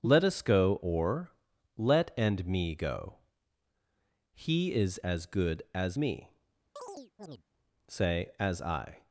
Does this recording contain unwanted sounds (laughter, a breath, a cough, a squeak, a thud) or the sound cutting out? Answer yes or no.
yes